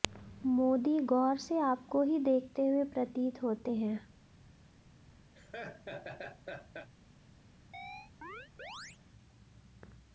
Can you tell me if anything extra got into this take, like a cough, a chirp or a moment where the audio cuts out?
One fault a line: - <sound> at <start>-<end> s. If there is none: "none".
- laugh at 5.3-6.9 s
- chirp at 7.7-9.0 s